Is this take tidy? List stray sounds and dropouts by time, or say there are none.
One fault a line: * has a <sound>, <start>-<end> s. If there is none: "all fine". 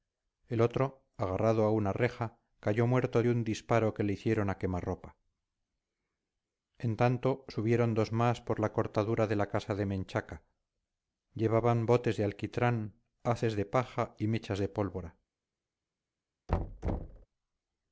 * has a thud, 16.5-17.3 s